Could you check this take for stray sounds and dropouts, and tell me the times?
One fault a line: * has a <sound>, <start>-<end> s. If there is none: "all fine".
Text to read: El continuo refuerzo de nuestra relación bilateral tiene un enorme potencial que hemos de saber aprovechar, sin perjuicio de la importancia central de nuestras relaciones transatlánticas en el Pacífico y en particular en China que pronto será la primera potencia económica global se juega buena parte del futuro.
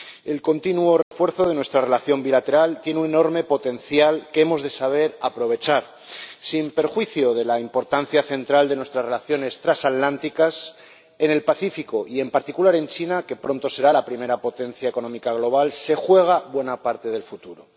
* has a dropout, 1.0-1.1 s